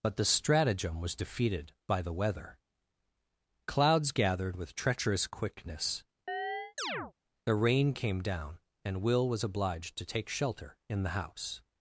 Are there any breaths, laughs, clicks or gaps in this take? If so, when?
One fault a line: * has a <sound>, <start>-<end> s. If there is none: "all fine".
* has a chirp, 6.3-7.1 s